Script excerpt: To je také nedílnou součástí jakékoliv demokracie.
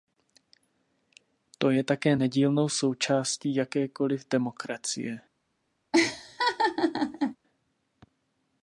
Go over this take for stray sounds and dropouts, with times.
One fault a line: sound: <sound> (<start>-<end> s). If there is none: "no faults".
sound: laugh (5.9-7.4 s)